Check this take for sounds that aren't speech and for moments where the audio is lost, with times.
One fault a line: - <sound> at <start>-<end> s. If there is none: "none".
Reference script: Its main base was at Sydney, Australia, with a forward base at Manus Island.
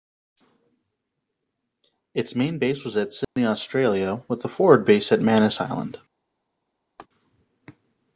- dropout at 3.2-3.4 s
- laugh at 7.0-7.1 s